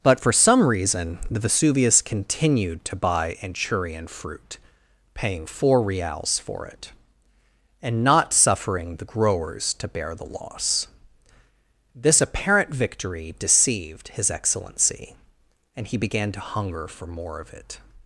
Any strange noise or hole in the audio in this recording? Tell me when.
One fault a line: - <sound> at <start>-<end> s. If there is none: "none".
none